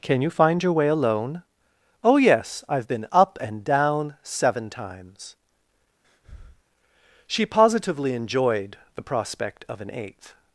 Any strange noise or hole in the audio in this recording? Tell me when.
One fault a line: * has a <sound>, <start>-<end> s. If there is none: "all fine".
* has a breath, 6.0-6.6 s